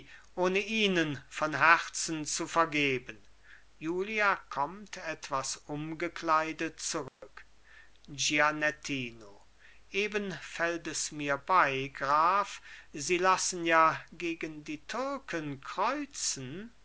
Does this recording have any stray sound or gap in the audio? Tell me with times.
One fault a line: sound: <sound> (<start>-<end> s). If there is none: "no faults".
sound: dropout (7.1-7.2 s)